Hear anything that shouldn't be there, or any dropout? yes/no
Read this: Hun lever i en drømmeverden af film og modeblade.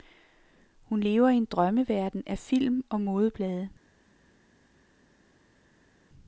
no